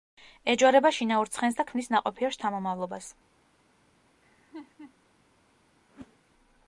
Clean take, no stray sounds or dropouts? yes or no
no